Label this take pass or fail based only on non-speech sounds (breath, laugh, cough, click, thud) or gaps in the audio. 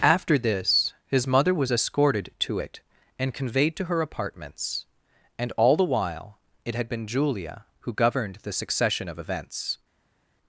pass